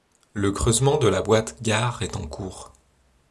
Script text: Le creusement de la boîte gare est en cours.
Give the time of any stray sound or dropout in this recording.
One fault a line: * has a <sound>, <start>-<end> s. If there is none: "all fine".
all fine